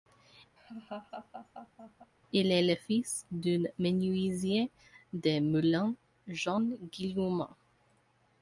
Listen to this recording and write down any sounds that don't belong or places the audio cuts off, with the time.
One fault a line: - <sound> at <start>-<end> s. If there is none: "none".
- laugh at 0.6-2.1 s